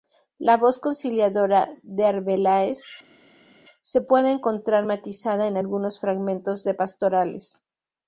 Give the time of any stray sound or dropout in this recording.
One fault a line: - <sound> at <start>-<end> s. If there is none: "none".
none